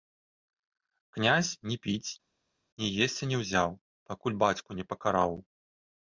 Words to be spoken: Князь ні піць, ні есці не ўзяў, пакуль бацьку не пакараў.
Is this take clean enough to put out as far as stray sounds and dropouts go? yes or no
yes